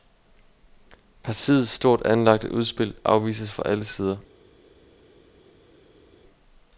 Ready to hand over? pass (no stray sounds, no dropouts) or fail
pass